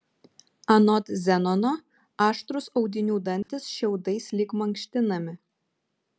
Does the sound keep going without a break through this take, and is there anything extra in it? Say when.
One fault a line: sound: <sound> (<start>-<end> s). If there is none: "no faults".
sound: dropout (3.4-3.5 s)